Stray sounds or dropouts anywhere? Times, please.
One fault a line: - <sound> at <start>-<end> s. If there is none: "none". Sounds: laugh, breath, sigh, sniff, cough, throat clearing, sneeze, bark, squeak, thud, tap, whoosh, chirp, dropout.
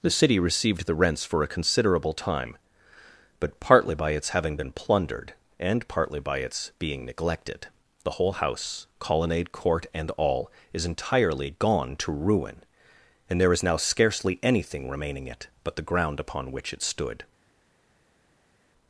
none